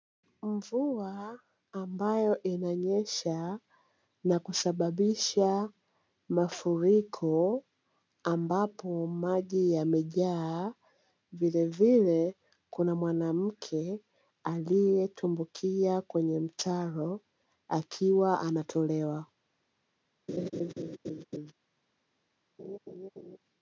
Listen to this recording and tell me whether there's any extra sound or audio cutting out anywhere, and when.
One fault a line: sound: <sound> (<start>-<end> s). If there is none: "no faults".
sound: laugh (20.3-21.5 s)
sound: laugh (22.6-23.4 s)